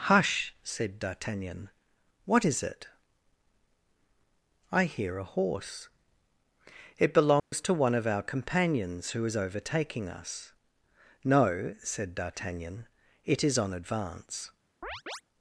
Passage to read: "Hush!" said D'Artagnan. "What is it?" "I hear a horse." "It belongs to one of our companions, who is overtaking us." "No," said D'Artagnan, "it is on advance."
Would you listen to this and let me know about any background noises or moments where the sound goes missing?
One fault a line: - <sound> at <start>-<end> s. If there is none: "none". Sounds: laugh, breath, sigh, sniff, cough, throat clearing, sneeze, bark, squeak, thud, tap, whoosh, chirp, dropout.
- dropout at 7.4-7.5 s
- chirp at 14.8-15.2 s